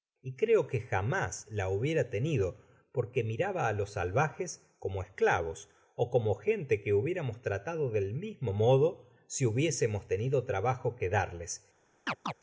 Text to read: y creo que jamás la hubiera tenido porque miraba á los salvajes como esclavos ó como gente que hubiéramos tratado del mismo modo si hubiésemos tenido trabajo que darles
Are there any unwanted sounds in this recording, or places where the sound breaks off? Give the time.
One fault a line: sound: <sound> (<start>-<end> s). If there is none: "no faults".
sound: chirp (12.1-12.3 s)